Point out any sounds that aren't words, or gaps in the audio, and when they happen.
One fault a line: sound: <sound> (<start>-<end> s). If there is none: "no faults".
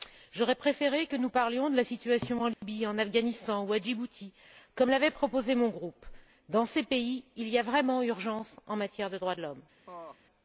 sound: dropout (2.5-2.6 s)
sound: laugh (9.9-10.2 s)